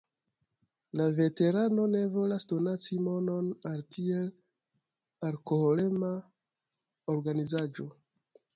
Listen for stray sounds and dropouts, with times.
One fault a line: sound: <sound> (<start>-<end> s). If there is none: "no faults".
no faults